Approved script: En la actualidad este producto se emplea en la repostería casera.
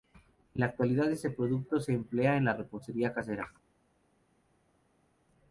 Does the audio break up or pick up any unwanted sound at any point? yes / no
no